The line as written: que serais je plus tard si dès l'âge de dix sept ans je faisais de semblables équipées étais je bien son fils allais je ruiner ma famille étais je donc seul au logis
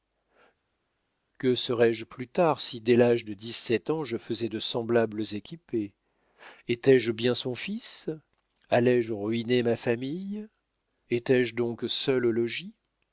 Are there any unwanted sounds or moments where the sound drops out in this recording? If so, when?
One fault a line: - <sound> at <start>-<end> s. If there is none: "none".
none